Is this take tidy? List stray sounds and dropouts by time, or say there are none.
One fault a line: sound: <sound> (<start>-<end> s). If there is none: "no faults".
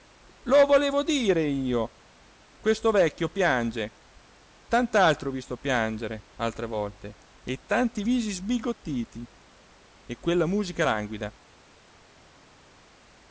no faults